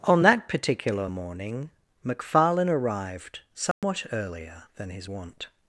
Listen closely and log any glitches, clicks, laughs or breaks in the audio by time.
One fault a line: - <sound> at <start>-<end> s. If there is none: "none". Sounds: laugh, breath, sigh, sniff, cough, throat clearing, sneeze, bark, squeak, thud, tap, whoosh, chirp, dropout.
- dropout at 3.7-3.8 s